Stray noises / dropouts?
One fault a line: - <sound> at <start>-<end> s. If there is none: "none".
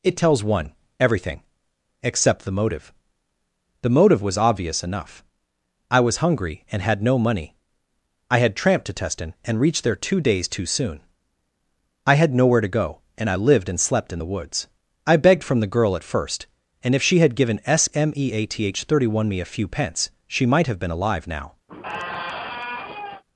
- squeak at 21.7-23.2 s